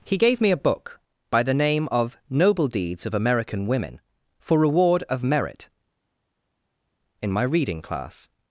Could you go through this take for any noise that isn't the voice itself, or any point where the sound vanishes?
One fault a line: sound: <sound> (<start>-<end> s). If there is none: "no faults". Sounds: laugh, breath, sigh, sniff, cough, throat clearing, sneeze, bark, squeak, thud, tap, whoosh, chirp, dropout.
no faults